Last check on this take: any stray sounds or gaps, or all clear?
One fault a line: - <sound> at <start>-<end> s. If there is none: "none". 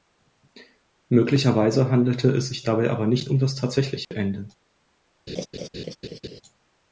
- dropout at 4.0-4.1 s
- laugh at 5.3-6.4 s